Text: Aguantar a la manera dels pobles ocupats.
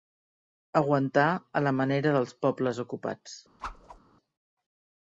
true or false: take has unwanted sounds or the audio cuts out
true